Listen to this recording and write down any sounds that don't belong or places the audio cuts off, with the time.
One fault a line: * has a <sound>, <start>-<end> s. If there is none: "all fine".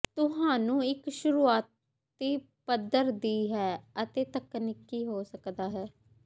all fine